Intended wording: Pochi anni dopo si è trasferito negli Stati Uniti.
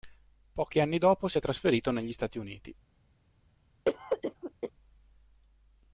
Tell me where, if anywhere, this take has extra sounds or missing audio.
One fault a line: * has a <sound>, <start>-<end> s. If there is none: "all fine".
* has a cough, 3.9-4.7 s